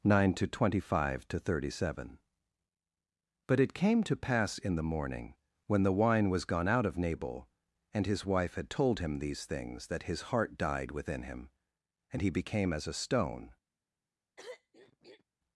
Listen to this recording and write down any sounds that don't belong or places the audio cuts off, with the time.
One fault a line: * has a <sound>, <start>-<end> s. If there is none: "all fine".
* has a throat clearing, 14.4-15.2 s